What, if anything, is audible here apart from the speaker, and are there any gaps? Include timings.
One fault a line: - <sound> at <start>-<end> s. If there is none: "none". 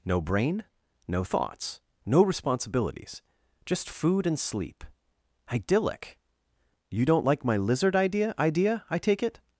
none